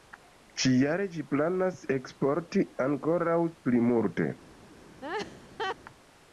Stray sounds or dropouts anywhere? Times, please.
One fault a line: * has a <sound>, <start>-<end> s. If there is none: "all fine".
* has a laugh, 5.0-5.8 s